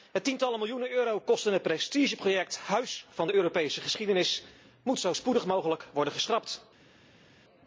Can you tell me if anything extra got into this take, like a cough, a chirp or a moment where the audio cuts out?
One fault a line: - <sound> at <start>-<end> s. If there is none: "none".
none